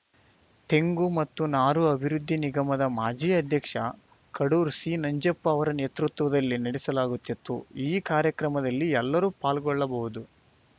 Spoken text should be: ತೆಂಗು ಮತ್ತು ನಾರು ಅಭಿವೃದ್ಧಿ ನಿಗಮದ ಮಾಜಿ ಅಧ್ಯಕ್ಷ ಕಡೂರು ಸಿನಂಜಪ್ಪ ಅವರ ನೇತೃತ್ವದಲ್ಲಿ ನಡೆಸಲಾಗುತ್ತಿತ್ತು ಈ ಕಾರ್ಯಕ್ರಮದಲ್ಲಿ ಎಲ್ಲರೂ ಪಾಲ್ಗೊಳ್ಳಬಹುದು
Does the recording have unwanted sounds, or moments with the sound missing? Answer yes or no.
no